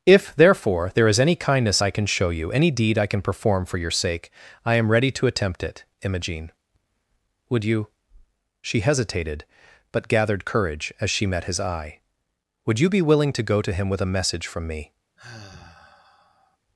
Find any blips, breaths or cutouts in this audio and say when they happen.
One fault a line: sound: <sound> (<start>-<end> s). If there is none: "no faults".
sound: sigh (15.2-16.6 s)